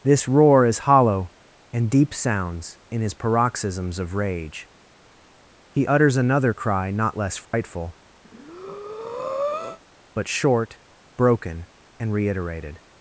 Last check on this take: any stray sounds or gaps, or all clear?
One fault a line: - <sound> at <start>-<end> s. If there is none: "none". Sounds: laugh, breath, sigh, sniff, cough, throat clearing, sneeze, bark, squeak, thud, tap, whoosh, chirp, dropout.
- dropout at 7.4-7.5 s
- breath at 8.2-9.8 s